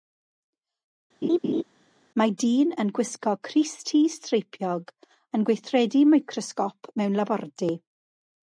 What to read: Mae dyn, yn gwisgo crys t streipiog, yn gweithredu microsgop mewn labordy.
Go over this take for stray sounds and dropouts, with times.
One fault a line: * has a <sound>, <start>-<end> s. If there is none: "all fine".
* has a laugh, 1.2-1.6 s